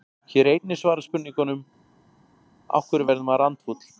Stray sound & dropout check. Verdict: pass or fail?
pass